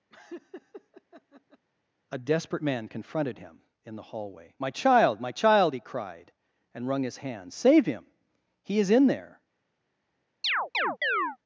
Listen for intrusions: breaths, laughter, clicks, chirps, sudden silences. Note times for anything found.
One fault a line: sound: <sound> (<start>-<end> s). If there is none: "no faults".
sound: laugh (0.1-1.7 s)
sound: chirp (10.4-11.4 s)